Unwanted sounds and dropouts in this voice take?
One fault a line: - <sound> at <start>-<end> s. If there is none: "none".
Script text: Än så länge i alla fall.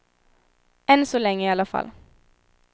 none